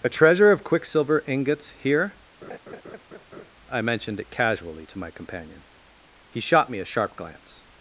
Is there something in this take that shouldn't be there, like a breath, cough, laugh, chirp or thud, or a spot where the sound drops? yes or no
yes